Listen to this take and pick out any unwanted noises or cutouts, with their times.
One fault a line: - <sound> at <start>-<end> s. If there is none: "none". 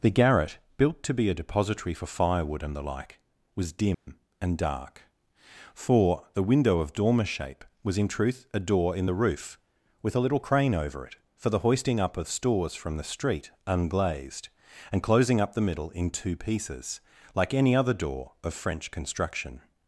- dropout at 3.9-4.1 s